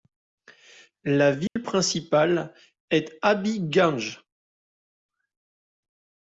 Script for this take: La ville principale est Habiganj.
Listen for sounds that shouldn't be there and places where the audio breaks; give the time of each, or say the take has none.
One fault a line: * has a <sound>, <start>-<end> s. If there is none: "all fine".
* has a dropout, 1.5-1.6 s